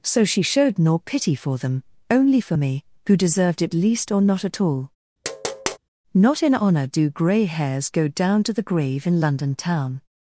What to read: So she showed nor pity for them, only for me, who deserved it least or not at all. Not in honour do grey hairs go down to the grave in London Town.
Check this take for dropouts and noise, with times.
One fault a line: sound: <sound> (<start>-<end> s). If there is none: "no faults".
sound: tap (5.2-5.8 s)